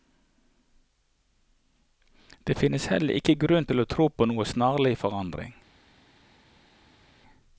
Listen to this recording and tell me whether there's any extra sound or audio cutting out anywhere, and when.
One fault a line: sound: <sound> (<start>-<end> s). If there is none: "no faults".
no faults